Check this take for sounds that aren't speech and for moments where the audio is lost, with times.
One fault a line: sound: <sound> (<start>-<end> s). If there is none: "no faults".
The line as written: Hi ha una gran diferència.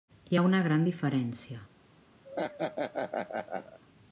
sound: laugh (2.2-3.8 s)